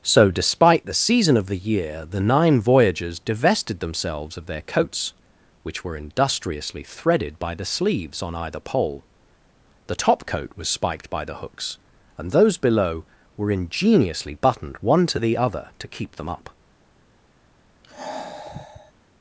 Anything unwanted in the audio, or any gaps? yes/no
yes